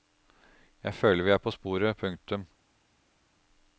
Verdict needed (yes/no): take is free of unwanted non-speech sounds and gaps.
yes